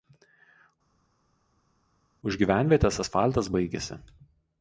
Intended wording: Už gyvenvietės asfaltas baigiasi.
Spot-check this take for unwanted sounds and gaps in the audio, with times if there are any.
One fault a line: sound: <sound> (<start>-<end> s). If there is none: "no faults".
no faults